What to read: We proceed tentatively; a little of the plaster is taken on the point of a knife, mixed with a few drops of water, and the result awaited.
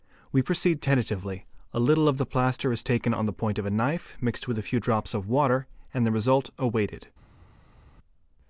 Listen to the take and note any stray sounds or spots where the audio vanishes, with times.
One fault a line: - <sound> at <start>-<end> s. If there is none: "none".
none